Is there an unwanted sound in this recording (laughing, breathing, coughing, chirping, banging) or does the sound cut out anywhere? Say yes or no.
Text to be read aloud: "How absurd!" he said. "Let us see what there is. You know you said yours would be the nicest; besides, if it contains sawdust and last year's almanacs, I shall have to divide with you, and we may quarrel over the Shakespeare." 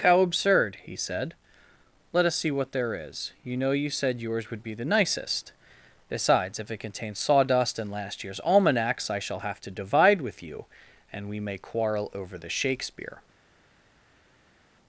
no